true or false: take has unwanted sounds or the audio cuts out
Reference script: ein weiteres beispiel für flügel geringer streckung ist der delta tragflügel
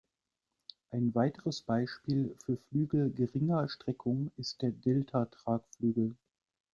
false